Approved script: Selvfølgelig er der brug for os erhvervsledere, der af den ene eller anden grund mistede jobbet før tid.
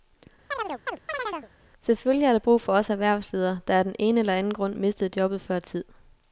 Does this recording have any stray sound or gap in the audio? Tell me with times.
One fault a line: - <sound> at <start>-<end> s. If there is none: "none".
- chirp at 0.5-1.5 s